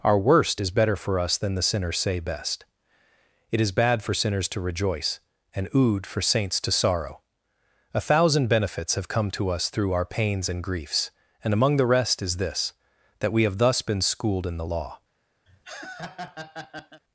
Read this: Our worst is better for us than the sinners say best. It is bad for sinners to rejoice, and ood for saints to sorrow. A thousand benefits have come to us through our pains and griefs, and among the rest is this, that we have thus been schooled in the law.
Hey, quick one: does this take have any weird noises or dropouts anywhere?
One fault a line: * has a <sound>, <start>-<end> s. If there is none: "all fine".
* has a laugh, 15.5-17.0 s